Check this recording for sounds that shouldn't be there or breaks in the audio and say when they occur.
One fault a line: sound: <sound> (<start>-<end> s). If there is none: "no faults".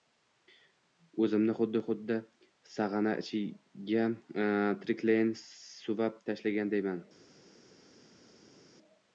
no faults